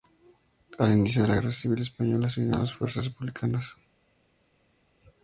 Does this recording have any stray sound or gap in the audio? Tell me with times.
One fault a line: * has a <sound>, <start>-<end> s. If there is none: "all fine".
all fine